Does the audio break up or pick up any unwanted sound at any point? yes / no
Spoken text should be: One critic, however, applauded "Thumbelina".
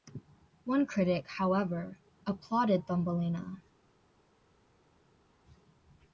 no